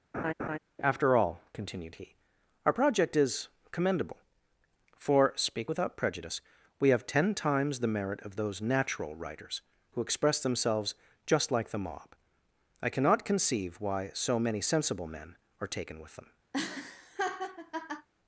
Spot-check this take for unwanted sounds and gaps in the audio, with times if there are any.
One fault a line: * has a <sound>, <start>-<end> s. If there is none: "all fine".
* has a laugh, 0.1-0.6 s
* has a laugh, 16.5-18.1 s